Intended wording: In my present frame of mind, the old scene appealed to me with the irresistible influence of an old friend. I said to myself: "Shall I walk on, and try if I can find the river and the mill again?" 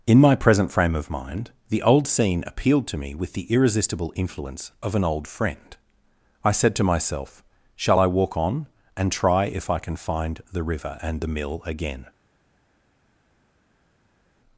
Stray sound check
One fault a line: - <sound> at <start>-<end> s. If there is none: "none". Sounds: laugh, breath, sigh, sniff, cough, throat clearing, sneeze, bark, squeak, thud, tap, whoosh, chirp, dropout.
none